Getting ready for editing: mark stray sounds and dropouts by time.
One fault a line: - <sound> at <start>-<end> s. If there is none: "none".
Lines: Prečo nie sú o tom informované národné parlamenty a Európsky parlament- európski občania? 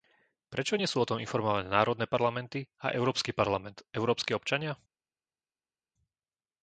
none